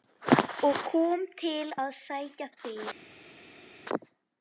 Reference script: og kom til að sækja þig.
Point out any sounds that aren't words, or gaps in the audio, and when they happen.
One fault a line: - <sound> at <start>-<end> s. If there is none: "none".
none